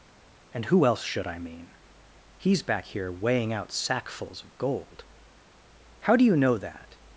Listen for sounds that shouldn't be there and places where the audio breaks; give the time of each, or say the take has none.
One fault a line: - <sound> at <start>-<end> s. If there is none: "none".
none